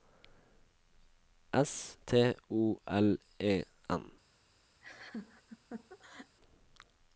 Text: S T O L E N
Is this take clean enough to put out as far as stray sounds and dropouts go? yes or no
no